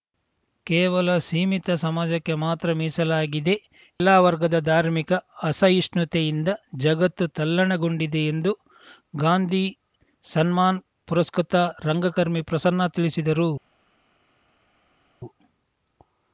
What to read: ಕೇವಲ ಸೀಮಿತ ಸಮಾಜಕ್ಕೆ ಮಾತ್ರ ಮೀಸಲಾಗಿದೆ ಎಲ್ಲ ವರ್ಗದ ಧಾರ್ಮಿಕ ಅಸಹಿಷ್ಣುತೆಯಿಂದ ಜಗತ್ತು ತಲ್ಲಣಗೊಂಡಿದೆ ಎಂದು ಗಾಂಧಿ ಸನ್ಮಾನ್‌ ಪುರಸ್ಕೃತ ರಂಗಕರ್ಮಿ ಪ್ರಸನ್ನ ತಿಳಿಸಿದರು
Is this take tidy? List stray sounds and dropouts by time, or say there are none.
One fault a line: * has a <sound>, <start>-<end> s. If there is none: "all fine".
all fine